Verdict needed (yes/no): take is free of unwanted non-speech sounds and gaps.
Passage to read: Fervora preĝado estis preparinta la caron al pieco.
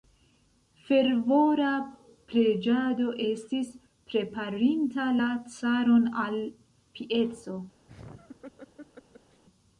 no